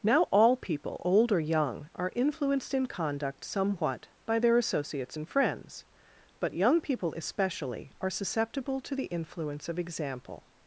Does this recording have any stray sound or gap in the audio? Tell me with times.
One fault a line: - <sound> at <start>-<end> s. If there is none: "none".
none